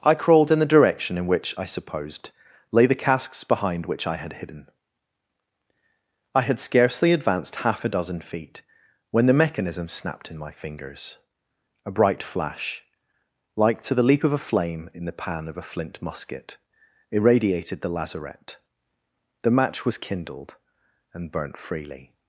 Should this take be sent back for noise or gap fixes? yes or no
no